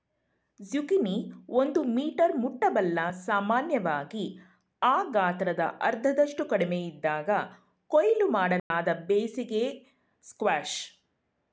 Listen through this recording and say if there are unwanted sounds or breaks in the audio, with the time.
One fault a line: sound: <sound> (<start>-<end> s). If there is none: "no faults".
sound: dropout (8.6-8.7 s)